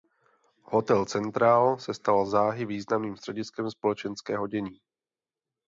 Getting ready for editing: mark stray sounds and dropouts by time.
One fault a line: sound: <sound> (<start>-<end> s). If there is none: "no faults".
no faults